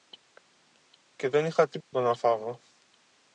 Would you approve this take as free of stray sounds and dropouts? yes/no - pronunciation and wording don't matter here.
no